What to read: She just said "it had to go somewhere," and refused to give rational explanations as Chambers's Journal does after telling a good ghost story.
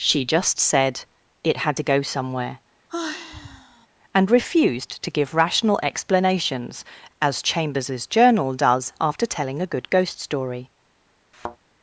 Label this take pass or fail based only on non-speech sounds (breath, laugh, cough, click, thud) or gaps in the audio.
fail